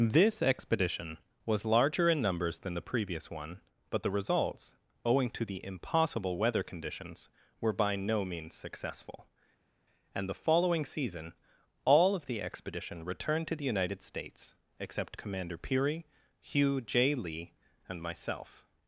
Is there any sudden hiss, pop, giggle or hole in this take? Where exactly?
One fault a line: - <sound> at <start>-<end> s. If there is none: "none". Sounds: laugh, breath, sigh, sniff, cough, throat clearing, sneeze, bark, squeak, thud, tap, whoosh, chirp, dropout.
none